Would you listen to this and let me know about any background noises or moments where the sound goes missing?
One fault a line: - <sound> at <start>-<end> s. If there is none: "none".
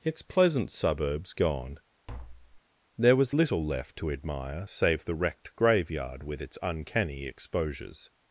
- tap at 2.1-2.6 s